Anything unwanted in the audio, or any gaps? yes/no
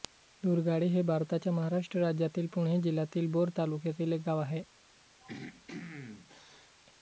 yes